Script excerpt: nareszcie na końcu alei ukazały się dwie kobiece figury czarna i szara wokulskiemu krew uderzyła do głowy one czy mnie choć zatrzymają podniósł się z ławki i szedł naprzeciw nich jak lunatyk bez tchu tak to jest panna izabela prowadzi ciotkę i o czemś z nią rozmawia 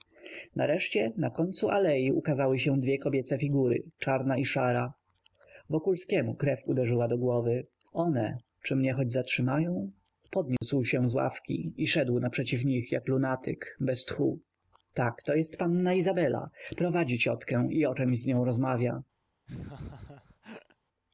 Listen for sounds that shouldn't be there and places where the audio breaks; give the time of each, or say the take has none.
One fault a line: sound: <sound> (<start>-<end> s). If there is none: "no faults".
sound: dropout (10.6-10.6 s)
sound: laugh (19.5-20.8 s)